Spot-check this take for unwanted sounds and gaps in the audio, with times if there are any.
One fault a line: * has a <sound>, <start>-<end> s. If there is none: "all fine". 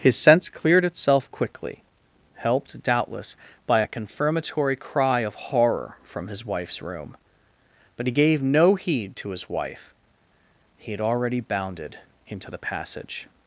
all fine